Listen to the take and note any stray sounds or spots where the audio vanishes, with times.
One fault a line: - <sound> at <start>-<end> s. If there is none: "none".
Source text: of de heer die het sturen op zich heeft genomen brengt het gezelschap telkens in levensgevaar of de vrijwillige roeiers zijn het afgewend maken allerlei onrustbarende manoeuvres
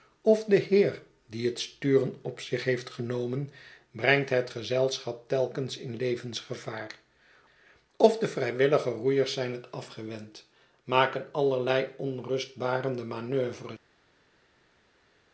none